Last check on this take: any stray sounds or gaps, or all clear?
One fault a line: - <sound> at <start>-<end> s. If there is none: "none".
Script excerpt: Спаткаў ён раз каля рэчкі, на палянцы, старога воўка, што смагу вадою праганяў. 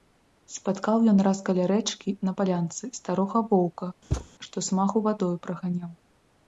- thud at 4.1-4.3 s